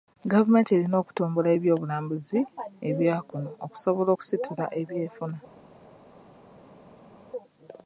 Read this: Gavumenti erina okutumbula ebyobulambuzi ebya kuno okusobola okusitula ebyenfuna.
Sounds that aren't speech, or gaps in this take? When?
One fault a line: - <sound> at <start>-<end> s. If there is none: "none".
none